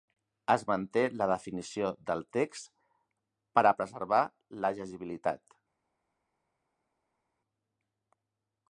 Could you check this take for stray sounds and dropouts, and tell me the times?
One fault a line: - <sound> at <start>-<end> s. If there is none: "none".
none